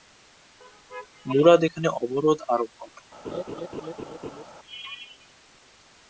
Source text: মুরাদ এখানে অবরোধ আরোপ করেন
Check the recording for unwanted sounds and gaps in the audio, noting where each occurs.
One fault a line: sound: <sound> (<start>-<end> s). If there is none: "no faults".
sound: laugh (3.2-4.4 s)